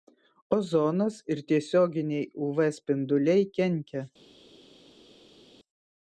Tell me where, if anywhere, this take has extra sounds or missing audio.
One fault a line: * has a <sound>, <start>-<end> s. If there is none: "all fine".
all fine